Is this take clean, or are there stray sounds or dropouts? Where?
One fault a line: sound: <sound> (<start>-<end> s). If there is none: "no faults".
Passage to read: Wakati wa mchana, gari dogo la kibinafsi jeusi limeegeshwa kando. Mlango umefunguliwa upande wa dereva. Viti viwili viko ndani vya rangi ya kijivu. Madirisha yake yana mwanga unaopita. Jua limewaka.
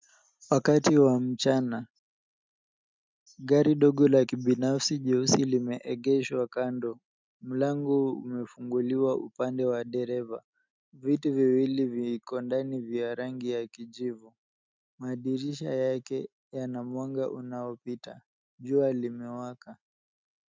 no faults